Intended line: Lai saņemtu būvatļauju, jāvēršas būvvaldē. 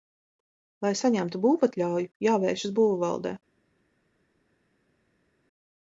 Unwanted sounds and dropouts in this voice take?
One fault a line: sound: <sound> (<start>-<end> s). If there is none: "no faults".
no faults